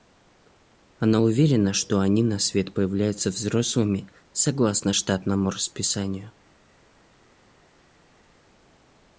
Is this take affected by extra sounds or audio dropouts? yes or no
no